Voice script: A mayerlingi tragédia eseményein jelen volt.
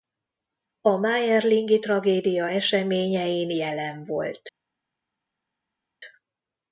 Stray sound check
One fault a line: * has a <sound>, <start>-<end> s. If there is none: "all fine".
all fine